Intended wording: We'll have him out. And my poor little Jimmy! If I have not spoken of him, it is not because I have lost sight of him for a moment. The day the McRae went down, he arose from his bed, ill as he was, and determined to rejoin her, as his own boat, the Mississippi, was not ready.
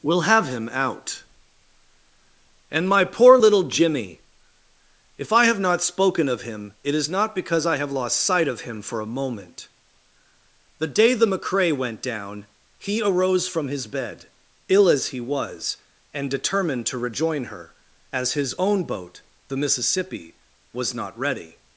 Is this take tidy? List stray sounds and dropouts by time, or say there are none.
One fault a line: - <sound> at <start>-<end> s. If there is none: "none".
none